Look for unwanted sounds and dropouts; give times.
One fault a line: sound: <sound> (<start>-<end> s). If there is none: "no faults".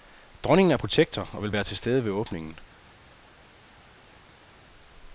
no faults